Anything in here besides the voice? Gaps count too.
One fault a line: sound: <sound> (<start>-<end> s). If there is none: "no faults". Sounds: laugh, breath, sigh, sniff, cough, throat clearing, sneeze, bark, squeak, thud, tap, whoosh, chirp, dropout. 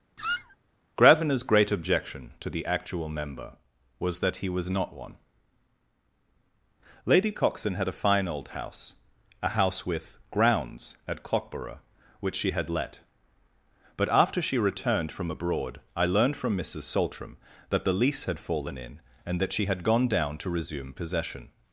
sound: squeak (0.2-0.6 s)